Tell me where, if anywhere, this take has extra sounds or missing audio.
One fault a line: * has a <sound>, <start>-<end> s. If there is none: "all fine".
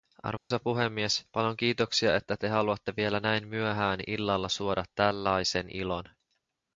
* has a dropout, 0.4-0.5 s